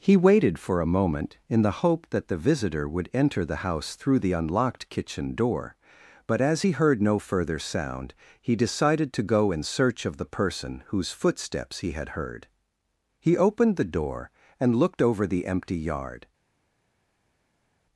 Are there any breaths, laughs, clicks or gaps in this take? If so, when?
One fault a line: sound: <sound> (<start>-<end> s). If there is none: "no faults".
no faults